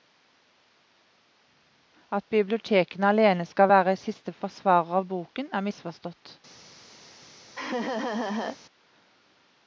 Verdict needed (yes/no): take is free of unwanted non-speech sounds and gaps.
no